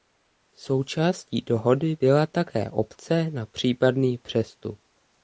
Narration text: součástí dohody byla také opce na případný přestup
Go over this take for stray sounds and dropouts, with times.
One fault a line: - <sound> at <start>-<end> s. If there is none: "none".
none